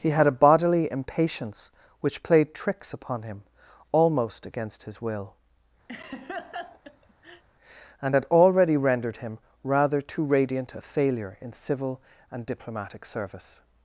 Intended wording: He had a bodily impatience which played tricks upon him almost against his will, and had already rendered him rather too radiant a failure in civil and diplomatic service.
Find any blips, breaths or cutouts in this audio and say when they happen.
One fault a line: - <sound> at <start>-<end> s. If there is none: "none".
- laugh at 5.9-7.4 s